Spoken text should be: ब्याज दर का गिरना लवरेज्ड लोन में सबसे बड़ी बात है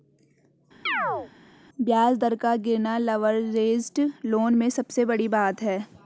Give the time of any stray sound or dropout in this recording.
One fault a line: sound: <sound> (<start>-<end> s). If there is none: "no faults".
sound: chirp (0.9-1.3 s)